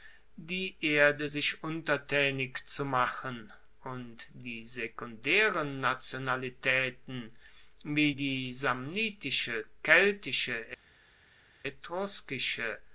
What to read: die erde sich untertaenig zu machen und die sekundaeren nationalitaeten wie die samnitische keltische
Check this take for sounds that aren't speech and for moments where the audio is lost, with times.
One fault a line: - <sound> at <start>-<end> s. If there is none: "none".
none